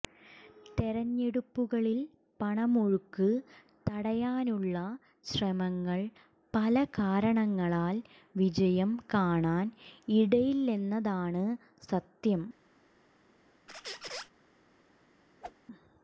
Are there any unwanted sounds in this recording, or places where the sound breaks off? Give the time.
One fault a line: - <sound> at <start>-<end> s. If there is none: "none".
- squeak at 13.7-14.3 s
- whoosh at 15.4-15.6 s